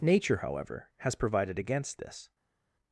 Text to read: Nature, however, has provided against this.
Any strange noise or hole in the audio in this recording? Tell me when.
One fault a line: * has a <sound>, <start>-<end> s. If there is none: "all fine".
all fine